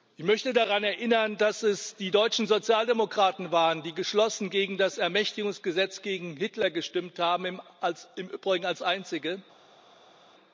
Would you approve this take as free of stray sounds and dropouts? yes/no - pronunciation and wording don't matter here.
yes